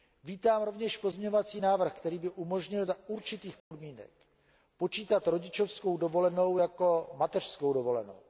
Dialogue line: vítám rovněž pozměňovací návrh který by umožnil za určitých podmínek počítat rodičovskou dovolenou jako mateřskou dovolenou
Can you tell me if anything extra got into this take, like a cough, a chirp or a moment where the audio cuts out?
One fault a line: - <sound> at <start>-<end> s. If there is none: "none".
- dropout at 3.6-3.7 s